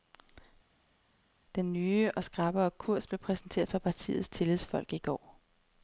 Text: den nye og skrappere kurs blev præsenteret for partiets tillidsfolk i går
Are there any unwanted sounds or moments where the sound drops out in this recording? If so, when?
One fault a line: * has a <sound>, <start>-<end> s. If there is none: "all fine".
all fine